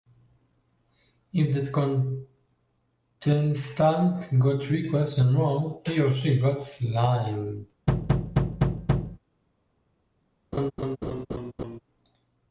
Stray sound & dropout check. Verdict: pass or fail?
fail